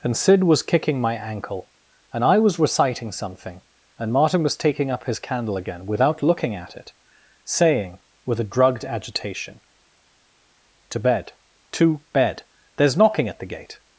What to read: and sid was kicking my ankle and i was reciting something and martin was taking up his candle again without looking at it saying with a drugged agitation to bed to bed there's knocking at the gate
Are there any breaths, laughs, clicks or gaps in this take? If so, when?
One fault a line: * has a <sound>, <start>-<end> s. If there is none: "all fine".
all fine